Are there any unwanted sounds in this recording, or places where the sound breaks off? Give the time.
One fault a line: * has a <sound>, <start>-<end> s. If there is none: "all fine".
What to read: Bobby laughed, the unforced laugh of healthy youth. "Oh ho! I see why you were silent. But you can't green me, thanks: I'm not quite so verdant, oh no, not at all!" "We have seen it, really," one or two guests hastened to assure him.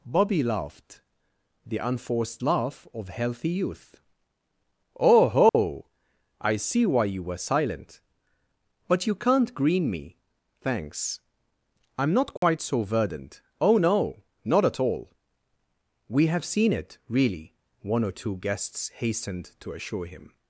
* has a dropout, 5.5-5.5 s
* has a dropout, 12.4-12.4 s